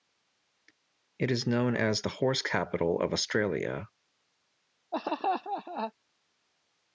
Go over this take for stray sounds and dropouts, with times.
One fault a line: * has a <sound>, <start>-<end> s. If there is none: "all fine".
* has a laugh, 4.9-5.9 s